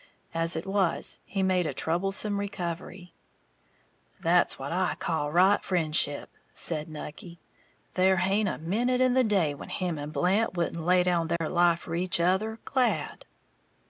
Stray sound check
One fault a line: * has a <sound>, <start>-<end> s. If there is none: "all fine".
* has a dropout, 11.4-11.4 s